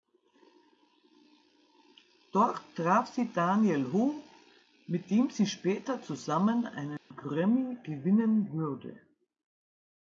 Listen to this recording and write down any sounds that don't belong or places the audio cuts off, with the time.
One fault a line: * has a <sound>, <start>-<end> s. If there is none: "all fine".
* has a dropout, 7.0-7.1 s